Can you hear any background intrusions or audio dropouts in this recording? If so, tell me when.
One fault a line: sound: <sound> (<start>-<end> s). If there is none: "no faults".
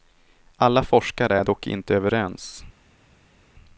no faults